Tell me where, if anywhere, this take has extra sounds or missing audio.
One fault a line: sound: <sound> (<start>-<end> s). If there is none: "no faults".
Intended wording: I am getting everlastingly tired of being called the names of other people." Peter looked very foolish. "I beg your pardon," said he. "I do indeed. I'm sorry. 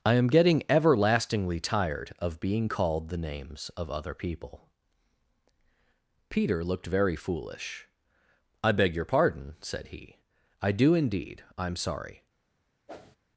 sound: whoosh (12.9-13.2 s)